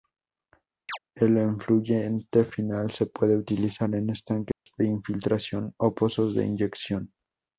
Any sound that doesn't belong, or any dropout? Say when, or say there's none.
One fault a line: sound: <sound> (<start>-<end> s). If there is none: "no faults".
sound: chirp (0.9-1.0 s)
sound: dropout (4.5-4.7 s)